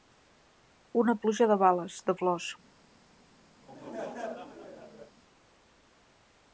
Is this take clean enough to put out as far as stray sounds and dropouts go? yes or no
no